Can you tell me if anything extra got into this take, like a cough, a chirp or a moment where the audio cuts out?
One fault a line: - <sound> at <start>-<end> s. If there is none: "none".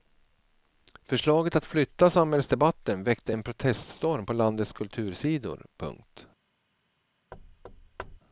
- thud at 7.3-8.2 s